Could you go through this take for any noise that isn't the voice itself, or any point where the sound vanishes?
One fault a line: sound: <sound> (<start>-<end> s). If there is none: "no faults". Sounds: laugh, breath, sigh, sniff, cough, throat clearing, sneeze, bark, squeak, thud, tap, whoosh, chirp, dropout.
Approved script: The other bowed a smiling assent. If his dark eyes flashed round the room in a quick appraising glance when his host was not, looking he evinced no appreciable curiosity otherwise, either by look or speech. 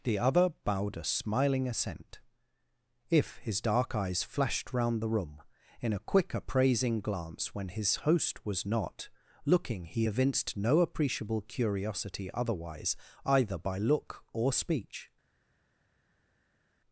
no faults